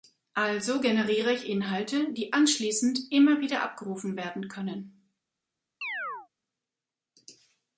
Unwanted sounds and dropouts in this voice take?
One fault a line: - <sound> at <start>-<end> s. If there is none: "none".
- chirp at 5.8-6.3 s